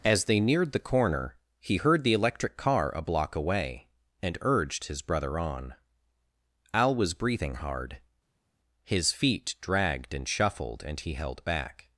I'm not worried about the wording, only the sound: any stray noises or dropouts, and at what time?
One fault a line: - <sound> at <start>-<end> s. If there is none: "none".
none